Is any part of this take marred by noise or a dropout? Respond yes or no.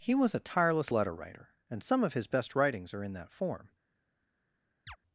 yes